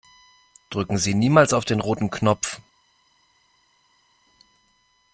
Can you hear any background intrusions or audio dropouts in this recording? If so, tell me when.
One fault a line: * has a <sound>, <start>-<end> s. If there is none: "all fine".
all fine